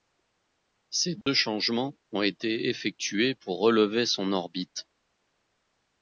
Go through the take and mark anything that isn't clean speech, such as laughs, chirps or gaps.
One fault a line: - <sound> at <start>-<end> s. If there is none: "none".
- dropout at 1.2-1.3 s